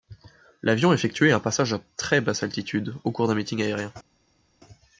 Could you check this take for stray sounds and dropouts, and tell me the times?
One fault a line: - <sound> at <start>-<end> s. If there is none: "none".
none